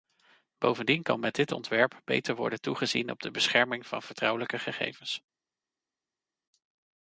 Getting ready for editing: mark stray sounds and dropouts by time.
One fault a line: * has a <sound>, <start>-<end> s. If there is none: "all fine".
all fine